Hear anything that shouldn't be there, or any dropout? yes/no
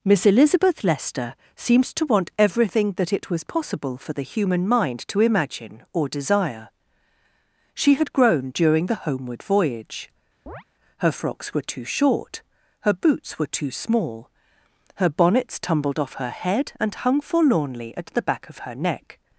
yes